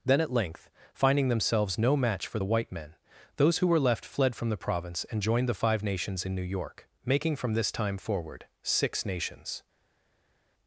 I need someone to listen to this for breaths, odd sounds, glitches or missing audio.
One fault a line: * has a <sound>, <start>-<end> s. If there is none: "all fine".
all fine